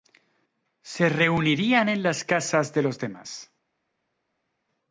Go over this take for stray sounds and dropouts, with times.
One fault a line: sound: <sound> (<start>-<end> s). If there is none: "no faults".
no faults